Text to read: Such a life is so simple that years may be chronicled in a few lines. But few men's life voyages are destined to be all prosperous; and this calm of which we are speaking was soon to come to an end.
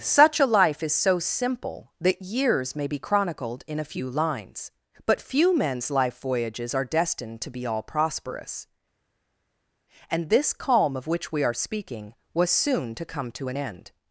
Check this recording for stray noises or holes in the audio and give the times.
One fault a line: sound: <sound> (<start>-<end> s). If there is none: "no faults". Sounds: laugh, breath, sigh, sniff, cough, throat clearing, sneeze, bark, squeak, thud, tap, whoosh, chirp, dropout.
no faults